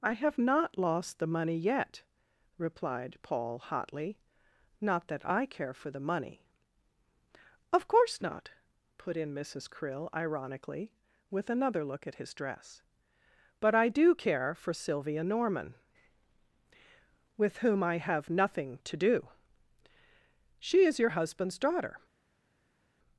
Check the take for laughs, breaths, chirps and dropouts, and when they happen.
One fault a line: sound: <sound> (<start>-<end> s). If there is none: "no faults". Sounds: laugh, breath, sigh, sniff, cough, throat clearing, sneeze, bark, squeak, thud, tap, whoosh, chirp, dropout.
no faults